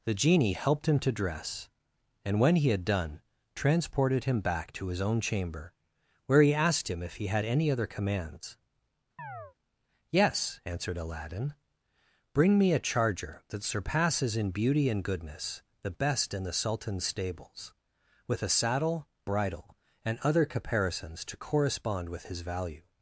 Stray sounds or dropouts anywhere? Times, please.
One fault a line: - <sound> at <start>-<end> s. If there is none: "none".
- chirp at 9.2-9.5 s